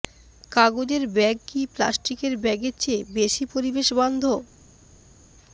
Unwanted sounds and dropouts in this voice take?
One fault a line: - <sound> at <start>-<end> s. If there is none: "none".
none